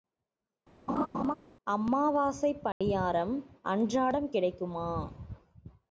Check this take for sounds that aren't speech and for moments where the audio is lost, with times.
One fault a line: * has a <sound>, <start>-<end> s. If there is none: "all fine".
* has a laugh, 0.9-1.3 s
* has a dropout, 2.7-2.8 s